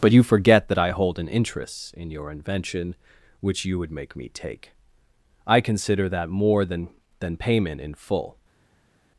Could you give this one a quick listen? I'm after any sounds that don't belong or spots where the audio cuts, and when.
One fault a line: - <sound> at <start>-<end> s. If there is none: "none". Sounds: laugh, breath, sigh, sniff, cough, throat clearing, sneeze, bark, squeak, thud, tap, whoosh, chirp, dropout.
none